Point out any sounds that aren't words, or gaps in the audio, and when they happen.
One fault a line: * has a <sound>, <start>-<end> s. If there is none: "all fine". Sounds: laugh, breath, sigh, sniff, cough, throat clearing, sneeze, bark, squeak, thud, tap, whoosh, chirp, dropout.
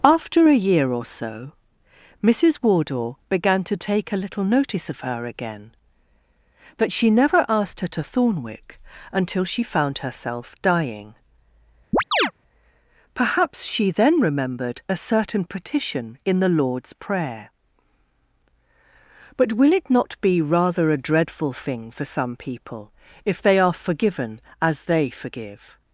* has a chirp, 11.9-12.3 s